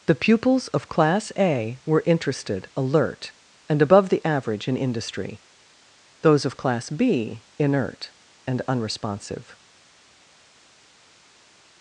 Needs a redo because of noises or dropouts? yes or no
no